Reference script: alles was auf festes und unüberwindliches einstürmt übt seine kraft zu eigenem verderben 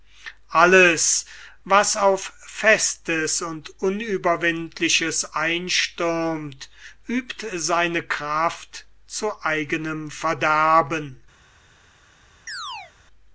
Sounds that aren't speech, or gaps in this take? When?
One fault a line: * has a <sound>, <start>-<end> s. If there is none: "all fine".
* has a chirp, 12.5-12.9 s